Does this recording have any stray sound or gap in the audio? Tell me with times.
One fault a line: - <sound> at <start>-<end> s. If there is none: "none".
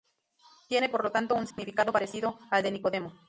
- dropout at 1.5-1.6 s